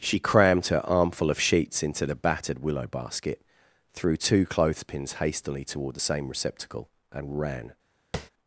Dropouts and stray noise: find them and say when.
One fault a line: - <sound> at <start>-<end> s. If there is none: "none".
- tap at 8.1-8.3 s